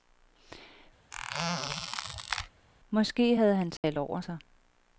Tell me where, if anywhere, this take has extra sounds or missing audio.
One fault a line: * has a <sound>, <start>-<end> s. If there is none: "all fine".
* has a squeak, 1.1-2.5 s
* has a dropout, 3.8-3.8 s